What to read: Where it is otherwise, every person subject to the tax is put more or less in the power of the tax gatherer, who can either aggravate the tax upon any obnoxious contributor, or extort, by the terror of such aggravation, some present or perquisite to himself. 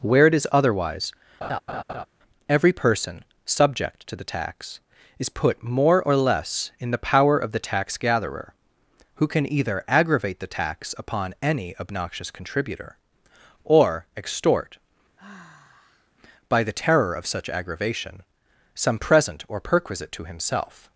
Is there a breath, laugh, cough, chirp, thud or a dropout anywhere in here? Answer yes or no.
yes